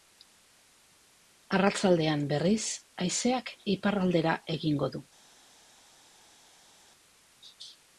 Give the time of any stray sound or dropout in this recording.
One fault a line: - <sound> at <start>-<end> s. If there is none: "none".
none